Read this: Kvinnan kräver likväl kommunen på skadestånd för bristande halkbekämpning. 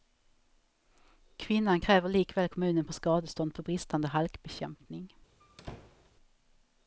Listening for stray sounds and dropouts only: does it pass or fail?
fail